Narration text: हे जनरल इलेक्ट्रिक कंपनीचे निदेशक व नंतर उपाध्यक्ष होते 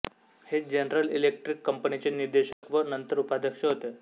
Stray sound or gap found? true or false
true